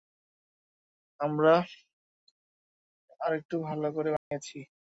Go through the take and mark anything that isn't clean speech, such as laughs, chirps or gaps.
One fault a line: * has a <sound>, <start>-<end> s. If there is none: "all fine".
* has a dropout, 4.2-4.3 s